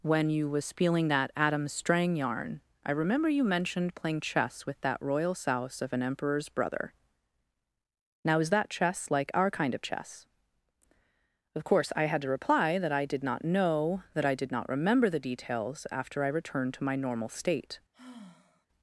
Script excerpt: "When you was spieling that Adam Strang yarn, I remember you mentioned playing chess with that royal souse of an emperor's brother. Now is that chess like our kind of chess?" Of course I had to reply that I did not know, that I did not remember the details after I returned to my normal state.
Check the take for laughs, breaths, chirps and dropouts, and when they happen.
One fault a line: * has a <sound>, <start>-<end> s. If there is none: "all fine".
* has a sigh, 17.9-18.7 s